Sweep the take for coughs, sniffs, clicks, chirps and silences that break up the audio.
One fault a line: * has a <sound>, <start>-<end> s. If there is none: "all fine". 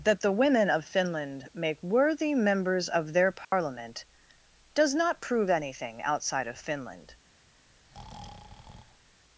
* has a dropout, 3.4-3.5 s
* has a breath, 7.7-9.2 s